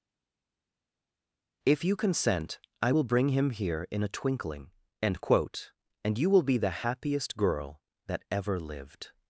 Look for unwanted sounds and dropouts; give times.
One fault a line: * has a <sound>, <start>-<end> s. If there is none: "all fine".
all fine